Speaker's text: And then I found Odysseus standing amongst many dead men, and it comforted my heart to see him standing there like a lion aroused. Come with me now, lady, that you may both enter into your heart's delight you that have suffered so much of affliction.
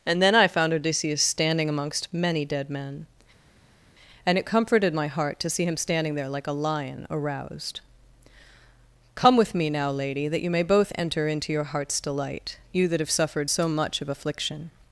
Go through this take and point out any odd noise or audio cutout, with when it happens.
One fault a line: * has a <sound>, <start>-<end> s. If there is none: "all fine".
all fine